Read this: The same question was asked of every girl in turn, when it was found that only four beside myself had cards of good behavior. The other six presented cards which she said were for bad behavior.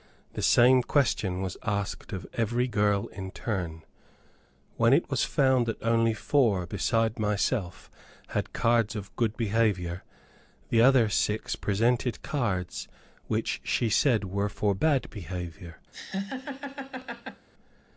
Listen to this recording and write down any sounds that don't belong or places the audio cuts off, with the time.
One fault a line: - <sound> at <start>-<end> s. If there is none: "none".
- laugh at 15.9-17.5 s